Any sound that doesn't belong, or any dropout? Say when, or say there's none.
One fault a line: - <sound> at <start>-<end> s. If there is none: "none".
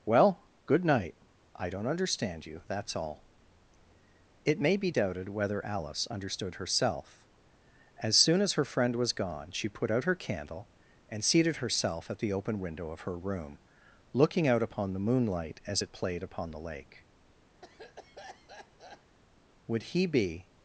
- cough at 17.6-19.2 s